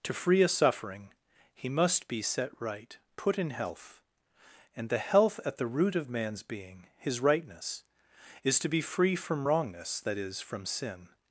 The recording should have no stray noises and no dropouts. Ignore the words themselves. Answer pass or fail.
pass